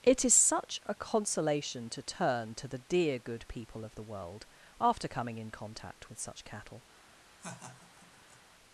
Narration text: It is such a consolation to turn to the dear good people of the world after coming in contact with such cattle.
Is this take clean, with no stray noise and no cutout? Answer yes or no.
no